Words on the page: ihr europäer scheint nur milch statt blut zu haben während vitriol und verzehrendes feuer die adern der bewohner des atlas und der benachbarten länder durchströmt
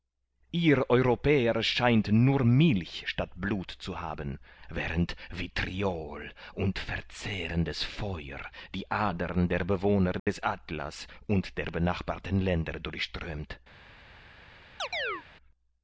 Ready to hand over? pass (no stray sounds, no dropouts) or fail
fail